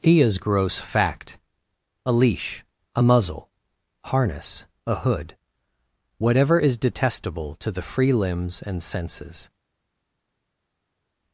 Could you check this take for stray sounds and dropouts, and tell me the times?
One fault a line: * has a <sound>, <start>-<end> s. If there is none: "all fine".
all fine